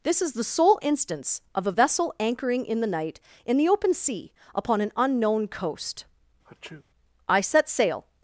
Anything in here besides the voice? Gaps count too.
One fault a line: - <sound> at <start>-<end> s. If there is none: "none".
- sneeze at 6.5-6.8 s